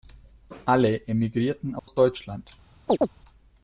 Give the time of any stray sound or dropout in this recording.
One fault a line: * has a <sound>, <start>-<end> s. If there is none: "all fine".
* has a dropout, 1.8-1.9 s
* has a chirp, 2.9-3.1 s